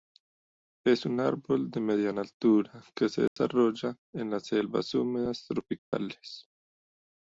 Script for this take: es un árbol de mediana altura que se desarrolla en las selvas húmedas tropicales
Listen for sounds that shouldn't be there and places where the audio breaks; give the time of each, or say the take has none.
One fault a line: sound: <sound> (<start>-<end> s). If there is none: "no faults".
sound: dropout (3.3-3.4 s)
sound: dropout (5.8-5.9 s)